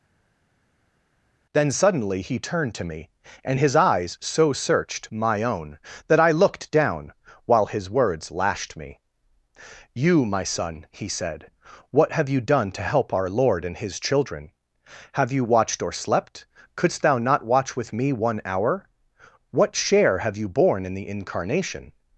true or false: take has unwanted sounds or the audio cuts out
false